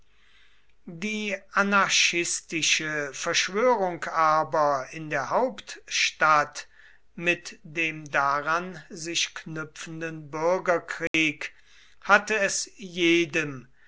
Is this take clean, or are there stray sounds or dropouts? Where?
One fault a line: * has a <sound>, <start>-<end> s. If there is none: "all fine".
* has a dropout, 11.1-11.1 s